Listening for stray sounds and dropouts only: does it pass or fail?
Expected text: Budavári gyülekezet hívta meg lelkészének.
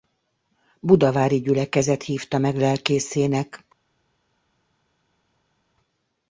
pass